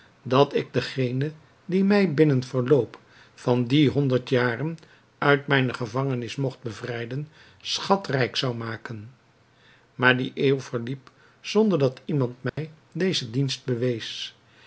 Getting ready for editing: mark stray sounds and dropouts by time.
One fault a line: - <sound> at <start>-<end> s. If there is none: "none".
- dropout at 12.5-12.6 s